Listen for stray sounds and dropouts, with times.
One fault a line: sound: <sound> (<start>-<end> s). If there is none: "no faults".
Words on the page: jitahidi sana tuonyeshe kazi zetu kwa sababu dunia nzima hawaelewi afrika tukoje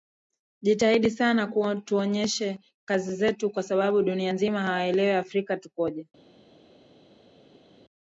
no faults